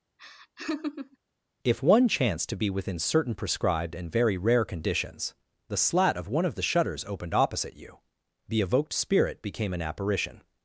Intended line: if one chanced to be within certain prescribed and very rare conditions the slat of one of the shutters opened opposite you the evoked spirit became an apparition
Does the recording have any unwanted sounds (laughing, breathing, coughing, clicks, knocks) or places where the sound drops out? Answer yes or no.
yes